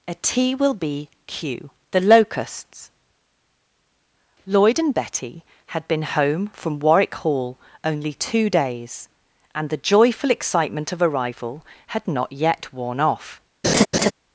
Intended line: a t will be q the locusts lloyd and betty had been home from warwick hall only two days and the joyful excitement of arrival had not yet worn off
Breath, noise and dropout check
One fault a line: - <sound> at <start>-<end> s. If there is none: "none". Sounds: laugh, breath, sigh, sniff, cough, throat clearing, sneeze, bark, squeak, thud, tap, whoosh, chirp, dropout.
- laugh at 13.6-14.1 s